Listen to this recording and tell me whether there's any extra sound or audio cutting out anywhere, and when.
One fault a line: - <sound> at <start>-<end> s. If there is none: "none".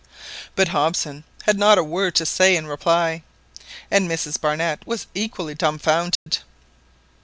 - dropout at 6.2-6.3 s